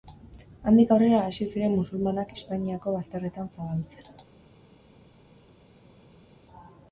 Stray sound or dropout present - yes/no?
no